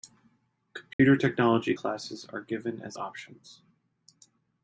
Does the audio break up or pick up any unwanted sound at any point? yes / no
yes